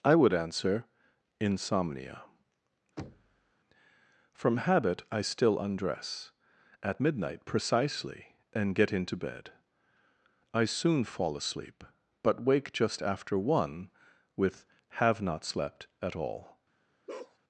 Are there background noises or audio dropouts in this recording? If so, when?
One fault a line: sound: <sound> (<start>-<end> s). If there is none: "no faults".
sound: thud (3.0-3.5 s)
sound: bark (17.1-17.4 s)